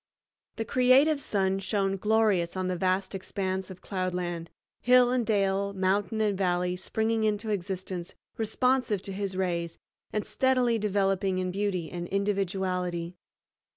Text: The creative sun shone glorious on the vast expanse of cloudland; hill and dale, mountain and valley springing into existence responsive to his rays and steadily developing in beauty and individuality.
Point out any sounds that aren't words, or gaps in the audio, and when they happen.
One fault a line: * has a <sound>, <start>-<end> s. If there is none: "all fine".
all fine